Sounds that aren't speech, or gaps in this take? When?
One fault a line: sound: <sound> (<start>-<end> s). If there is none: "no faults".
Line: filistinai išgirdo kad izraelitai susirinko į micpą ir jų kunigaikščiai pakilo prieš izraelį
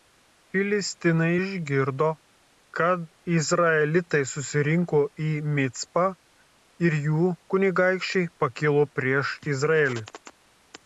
no faults